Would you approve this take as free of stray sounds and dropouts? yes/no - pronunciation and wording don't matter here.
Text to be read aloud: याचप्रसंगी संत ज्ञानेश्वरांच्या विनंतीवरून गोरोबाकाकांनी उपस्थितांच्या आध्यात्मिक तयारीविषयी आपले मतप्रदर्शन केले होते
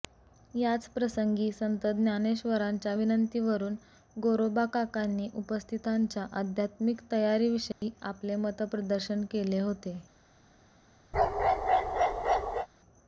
no